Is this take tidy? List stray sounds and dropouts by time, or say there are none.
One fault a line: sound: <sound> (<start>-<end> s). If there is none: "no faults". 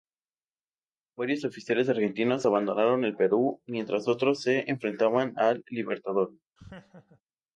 sound: laugh (6.6-7.2 s)